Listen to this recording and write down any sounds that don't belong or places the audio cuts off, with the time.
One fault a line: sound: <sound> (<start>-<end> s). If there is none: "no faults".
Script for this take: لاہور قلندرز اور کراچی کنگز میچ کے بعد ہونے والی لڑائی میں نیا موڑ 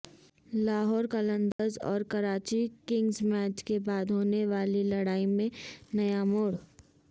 sound: dropout (1.5-1.6 s)